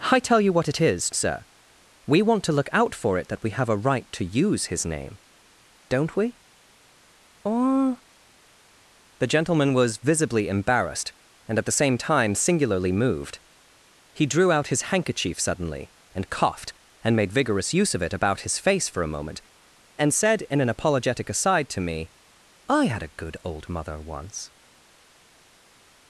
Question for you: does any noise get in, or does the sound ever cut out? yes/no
no